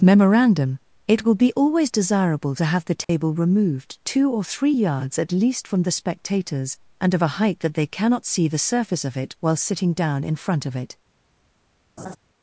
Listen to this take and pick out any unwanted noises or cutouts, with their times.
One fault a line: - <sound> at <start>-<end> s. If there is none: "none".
- dropout at 3.0-3.1 s
- laugh at 12.0-12.2 s